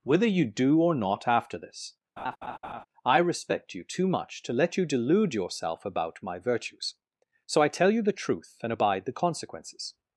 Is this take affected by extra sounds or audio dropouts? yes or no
yes